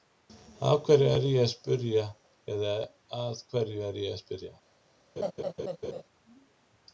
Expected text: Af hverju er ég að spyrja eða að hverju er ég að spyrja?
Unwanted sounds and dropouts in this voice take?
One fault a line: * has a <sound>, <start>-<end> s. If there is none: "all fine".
* has a laugh, 5.2-6.0 s